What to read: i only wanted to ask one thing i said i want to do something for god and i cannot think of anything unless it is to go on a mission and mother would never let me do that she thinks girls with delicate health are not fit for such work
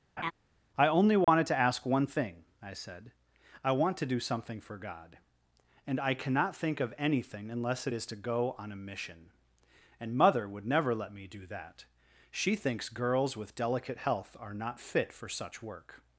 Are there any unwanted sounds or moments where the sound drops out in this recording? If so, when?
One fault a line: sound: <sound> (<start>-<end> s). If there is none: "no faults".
sound: laugh (0.2-0.3 s)
sound: dropout (1.2-1.3 s)